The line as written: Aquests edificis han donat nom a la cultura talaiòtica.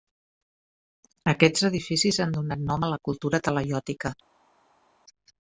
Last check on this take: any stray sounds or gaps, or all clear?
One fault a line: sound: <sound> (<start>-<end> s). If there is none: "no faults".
no faults